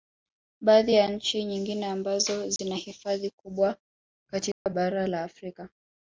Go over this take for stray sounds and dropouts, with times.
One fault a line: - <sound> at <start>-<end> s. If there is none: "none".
- dropout at 2.6-2.6 s
- dropout at 4.5-4.7 s